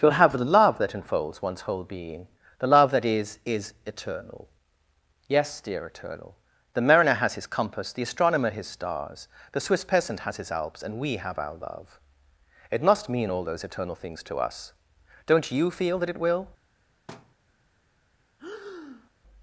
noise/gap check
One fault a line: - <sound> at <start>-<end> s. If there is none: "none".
- thud at 17.1-17.3 s
- breath at 18.4-19.1 s